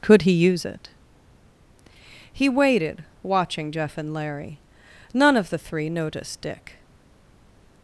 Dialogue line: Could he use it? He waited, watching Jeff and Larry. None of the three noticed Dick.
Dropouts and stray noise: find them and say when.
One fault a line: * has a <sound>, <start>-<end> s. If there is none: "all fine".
all fine